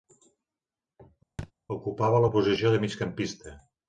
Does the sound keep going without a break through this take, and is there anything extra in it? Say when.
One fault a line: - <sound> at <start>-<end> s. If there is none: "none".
- thud at 1.4-1.5 s